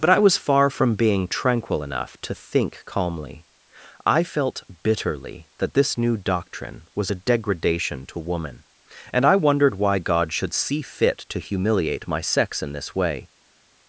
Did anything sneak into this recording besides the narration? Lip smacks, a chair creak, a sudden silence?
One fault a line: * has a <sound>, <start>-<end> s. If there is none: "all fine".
all fine